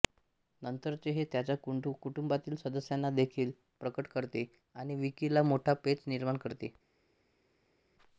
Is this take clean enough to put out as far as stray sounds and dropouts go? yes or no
yes